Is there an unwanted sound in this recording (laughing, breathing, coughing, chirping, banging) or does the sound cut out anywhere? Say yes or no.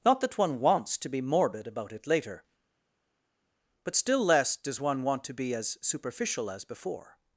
no